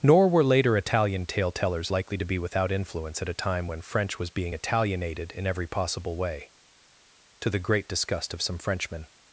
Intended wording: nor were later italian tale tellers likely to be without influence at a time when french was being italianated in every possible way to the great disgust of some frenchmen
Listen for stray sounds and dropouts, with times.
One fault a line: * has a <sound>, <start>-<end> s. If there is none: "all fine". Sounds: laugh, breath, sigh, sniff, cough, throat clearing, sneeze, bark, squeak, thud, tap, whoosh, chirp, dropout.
all fine